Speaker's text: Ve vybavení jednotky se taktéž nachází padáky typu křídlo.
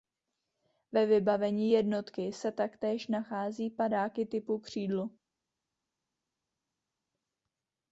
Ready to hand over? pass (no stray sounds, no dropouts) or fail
pass